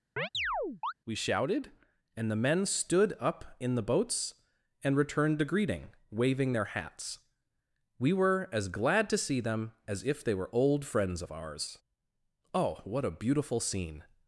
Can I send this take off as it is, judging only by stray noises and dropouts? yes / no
no